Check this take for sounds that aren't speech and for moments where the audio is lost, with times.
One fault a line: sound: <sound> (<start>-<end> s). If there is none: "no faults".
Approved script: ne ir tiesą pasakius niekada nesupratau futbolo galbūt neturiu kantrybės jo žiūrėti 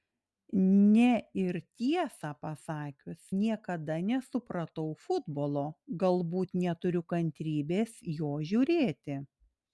no faults